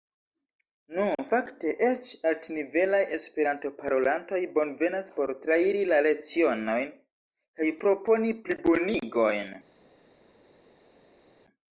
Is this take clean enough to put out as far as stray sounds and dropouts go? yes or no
yes